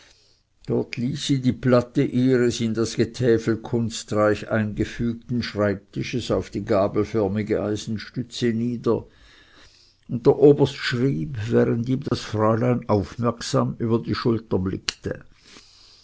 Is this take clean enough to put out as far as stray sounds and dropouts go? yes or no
no